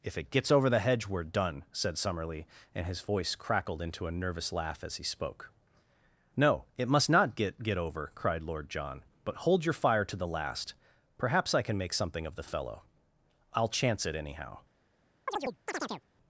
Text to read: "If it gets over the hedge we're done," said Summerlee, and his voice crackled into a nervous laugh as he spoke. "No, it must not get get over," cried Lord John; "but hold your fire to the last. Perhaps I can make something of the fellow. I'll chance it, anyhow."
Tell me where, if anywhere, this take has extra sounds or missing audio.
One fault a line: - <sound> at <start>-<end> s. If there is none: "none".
- chirp at 15.3-16.0 s